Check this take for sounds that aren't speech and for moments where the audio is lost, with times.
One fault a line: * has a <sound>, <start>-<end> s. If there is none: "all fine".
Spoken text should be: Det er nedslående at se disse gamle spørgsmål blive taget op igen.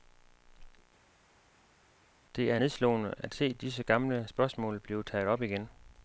all fine